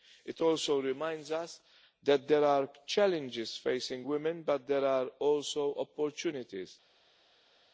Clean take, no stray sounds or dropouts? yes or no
yes